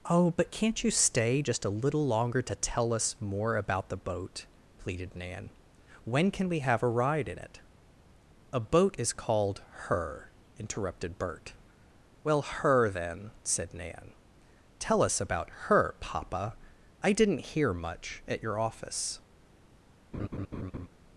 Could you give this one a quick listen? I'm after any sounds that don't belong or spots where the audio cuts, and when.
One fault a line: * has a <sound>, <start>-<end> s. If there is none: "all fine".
* has a laugh, 20.1-20.9 s